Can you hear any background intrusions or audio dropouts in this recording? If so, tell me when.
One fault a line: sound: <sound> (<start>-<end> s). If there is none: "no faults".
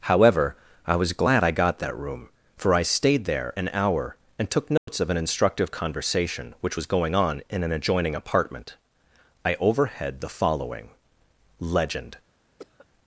sound: dropout (4.8-4.9 s)
sound: cough (12.6-12.9 s)